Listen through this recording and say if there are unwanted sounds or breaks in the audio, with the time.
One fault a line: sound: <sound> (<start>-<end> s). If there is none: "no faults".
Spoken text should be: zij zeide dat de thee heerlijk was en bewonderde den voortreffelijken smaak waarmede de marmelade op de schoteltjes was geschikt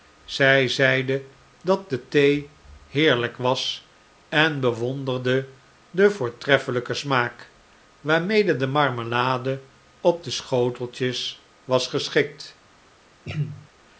sound: throat clearing (13.2-13.7 s)